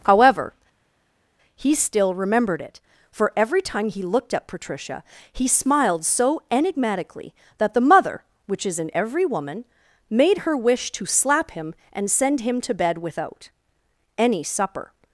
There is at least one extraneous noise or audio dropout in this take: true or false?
false